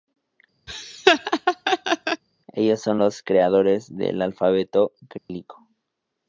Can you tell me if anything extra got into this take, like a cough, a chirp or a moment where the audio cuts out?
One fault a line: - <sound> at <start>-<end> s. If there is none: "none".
- laugh at 0.7-2.2 s
- dropout at 5.2-5.3 s